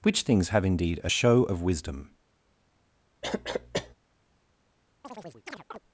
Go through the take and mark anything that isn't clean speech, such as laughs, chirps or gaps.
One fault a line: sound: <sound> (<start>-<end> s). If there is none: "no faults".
sound: cough (3.2-3.9 s)
sound: chirp (5.0-5.8 s)